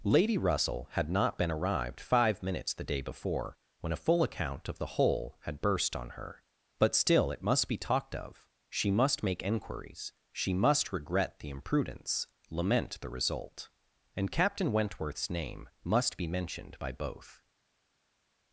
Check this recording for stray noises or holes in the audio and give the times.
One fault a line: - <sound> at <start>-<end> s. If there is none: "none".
none